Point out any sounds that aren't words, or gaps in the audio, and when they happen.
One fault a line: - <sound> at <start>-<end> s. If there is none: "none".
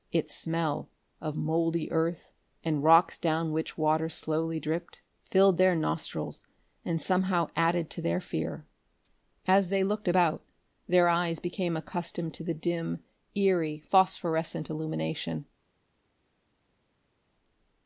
none